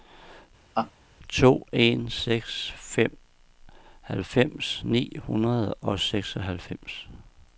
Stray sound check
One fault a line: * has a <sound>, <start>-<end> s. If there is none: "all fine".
* has a laugh, 0.8-0.9 s